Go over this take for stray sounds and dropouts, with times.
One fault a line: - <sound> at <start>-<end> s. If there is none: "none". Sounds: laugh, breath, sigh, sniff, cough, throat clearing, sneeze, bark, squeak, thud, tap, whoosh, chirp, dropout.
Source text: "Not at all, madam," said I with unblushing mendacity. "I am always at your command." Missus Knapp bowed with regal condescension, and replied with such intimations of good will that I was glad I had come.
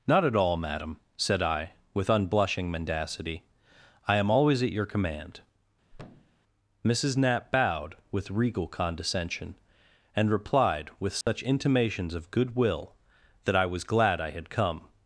- thud at 5.9-6.4 s
- dropout at 11.2-11.3 s